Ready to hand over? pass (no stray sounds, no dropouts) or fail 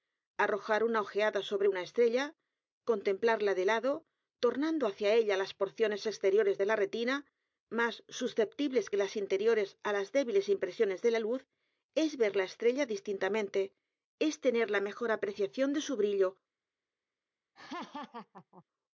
fail